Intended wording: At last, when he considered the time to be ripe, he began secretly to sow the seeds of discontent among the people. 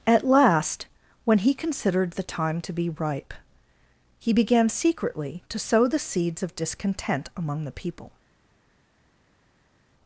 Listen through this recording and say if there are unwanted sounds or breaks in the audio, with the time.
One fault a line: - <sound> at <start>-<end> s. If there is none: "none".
none